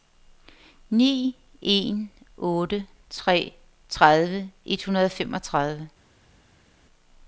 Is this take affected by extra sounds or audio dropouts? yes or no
no